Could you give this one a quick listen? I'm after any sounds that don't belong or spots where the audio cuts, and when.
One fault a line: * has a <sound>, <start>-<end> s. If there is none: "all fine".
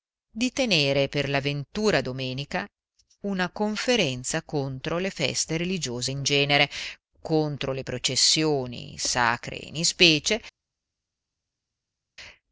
all fine